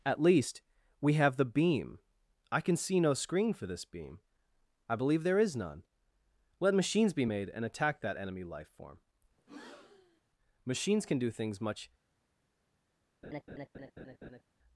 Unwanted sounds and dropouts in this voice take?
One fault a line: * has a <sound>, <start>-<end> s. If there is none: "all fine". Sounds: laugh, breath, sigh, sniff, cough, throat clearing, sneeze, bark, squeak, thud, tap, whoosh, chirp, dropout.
* has a breath, 9.4-10.2 s
* has a laugh, 13.2-14.4 s